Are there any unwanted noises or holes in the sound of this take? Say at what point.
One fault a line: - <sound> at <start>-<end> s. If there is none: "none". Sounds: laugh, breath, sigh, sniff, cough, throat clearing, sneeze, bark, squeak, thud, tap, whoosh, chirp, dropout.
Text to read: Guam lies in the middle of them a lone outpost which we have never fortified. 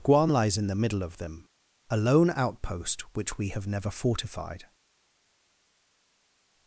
none